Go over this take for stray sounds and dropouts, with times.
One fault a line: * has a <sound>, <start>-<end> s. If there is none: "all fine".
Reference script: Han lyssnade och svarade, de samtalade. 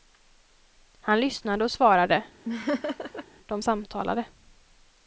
* has a laugh, 2.4-3.2 s